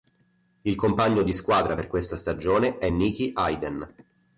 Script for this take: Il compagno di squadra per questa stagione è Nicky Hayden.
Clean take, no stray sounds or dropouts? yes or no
yes